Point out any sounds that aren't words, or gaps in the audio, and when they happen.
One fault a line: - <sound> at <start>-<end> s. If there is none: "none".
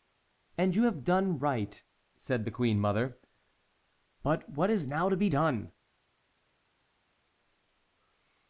none